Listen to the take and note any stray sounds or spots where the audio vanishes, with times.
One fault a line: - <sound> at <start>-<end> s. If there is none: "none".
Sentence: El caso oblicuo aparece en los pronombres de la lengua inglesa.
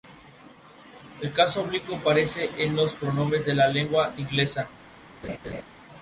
- laugh at 5.2-5.6 s